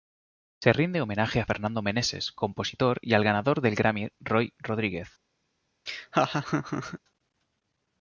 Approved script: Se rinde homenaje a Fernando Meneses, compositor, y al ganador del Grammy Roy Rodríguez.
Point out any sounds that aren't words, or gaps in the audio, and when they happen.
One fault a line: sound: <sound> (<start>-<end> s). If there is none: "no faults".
sound: laugh (5.9-7.0 s)